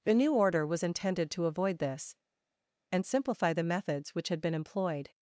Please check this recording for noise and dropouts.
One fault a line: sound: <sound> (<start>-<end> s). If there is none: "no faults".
no faults